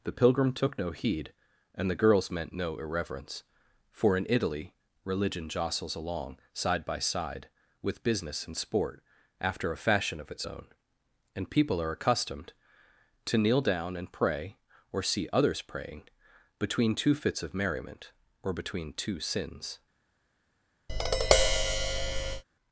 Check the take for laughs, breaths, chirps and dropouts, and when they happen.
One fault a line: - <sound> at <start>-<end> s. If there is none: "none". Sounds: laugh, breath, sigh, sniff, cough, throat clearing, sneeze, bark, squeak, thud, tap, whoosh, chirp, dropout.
- tap at 20.9-22.4 s